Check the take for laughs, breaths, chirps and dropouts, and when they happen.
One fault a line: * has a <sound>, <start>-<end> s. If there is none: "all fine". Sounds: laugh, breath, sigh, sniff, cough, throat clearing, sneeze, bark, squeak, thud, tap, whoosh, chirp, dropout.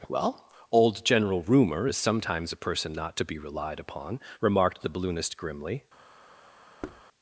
* has a thud, 6.8-7.0 s